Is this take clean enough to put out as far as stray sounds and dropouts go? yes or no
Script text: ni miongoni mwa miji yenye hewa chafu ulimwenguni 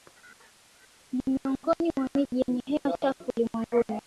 yes